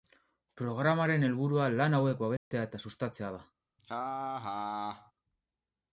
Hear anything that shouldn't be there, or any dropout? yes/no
yes